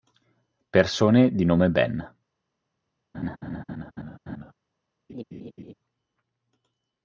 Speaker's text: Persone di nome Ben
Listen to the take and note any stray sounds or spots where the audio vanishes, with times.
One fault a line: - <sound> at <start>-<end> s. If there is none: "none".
- laugh at 3.1-4.5 s
- laugh at 5.1-5.7 s